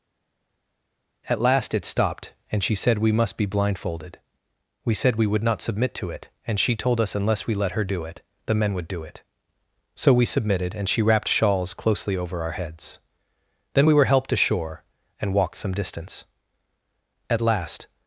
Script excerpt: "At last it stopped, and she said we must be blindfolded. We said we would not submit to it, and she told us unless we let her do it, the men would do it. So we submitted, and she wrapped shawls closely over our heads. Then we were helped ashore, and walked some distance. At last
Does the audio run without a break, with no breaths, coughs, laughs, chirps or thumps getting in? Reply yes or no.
yes